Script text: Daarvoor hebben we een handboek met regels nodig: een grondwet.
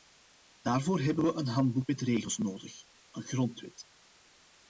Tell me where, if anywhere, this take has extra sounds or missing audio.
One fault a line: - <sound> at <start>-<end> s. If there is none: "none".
none